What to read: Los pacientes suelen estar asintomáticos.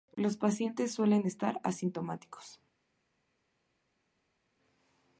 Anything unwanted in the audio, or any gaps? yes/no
no